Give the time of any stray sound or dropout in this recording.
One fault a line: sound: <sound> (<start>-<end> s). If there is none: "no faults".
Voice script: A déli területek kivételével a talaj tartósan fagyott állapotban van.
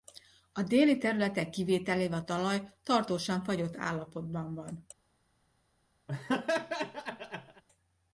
sound: laugh (6.1-7.6 s)